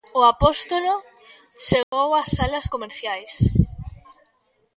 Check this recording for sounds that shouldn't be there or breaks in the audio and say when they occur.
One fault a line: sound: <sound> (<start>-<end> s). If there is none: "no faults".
sound: dropout (1.8-1.9 s)